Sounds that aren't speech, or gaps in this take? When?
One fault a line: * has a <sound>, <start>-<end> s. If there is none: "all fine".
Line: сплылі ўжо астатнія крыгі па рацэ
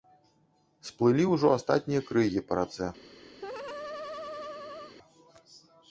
* has a laugh, 3.4-4.9 s